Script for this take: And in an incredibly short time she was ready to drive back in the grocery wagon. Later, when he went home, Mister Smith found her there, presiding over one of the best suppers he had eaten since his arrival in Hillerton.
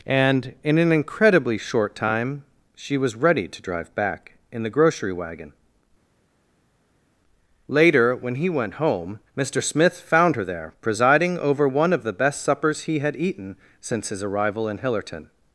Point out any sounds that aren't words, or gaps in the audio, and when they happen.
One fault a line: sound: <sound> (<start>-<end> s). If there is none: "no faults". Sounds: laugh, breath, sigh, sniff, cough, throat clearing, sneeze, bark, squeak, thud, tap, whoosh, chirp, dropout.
no faults